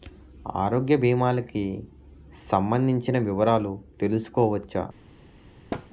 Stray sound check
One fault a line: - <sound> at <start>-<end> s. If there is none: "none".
- thud at 5.7-5.9 s